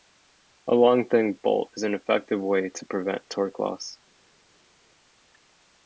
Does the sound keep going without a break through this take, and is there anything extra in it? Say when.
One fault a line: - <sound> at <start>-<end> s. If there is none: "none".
none